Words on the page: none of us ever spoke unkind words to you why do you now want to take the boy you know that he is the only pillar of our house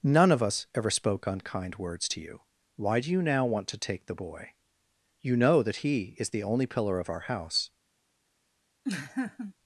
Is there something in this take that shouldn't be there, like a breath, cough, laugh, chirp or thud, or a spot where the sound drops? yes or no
yes